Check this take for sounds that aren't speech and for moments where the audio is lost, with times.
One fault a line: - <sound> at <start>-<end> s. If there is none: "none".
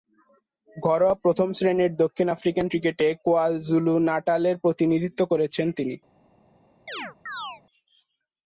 - chirp at 6.9-7.6 s